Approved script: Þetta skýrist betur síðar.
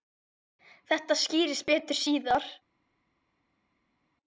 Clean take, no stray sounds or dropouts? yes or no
yes